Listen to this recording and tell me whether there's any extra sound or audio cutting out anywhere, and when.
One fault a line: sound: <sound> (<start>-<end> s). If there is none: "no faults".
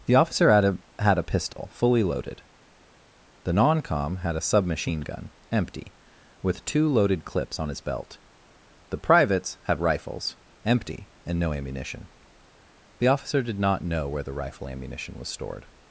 sound: dropout (1.5-1.6 s)